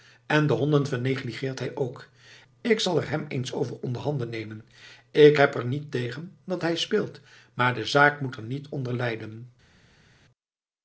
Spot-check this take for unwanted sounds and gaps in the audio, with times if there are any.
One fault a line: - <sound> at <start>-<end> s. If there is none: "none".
none